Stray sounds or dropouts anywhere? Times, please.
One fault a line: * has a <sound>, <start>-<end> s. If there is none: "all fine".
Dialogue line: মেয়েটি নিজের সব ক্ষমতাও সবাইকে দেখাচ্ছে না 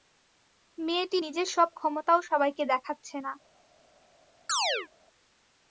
* has a chirp, 4.5-4.9 s